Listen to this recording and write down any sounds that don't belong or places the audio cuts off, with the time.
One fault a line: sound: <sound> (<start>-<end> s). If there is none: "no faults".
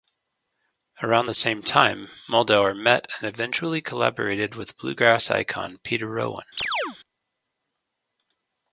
sound: chirp (6.6-7.0 s)